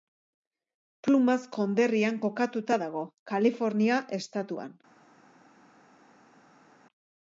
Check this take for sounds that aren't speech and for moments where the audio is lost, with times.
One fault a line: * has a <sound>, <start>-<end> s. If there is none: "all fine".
all fine